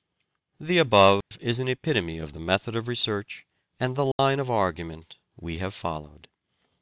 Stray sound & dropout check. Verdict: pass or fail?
fail